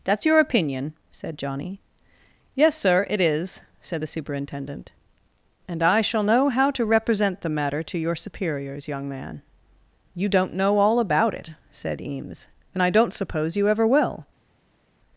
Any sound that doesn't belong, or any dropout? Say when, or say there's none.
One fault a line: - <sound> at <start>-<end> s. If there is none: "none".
none